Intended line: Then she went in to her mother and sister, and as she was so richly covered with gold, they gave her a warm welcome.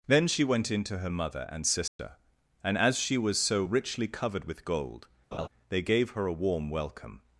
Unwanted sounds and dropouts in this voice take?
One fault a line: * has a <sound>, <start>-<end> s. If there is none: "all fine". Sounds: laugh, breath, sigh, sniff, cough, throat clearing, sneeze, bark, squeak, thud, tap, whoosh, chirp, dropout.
* has a dropout, 1.9-2.0 s
* has a laugh, 5.3-5.5 s